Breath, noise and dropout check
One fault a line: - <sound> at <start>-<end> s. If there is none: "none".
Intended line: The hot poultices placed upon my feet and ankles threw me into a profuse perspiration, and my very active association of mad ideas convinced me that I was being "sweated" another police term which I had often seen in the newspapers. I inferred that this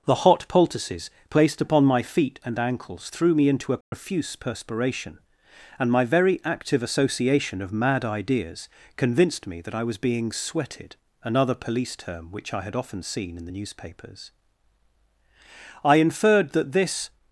- dropout at 3.8-3.9 s